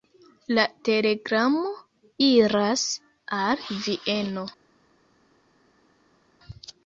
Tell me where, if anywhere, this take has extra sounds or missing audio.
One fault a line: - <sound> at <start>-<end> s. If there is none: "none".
none